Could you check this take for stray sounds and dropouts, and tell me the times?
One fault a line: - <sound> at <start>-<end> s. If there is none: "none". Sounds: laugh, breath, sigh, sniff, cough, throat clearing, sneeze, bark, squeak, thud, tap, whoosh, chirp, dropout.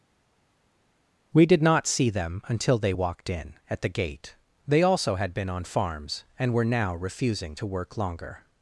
none